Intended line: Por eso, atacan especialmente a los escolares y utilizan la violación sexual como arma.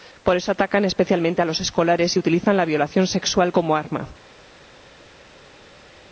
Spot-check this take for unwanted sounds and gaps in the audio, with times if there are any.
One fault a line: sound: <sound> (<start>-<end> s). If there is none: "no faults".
no faults